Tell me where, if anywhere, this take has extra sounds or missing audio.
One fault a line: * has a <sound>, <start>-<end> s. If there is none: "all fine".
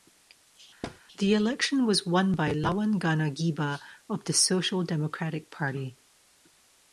* has a thud, 0.8-1.0 s